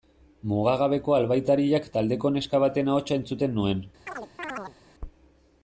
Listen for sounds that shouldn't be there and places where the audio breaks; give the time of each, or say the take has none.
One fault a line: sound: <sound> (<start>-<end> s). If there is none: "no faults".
sound: chirp (4.1-4.8 s)